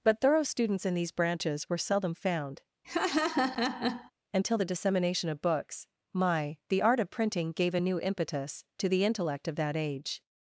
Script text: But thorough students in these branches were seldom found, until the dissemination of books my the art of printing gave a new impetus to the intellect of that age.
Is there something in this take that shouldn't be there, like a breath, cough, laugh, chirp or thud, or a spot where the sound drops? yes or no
yes